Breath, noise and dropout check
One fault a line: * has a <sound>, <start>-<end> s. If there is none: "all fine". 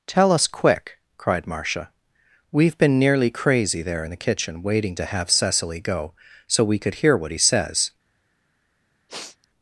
* has a sniff, 9.1-9.5 s